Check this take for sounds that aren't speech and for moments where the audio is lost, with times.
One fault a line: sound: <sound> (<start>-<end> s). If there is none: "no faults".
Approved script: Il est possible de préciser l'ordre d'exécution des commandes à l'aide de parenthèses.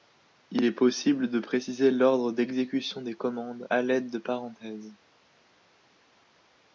no faults